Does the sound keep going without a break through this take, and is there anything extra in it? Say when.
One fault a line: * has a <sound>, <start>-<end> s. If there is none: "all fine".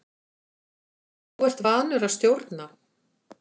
all fine